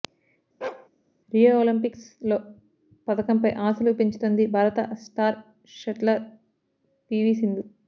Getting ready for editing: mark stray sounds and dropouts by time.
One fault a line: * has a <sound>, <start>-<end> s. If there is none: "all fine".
* has a bark, 0.6-0.9 s